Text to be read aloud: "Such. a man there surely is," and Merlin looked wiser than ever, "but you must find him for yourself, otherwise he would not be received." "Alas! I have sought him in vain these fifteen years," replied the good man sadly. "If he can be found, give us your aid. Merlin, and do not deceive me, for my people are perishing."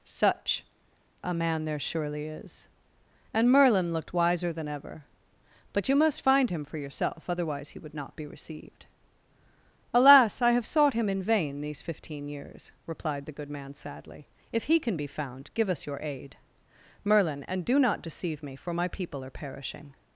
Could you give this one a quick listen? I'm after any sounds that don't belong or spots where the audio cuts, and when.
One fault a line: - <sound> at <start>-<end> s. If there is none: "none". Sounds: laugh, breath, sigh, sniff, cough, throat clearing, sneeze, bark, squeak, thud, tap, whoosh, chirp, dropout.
none